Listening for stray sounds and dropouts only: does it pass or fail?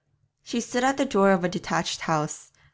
pass